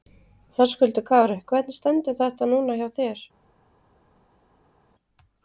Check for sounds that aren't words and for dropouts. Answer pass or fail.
pass